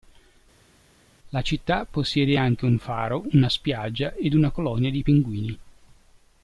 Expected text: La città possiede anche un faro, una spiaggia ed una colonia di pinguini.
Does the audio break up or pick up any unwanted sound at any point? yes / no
no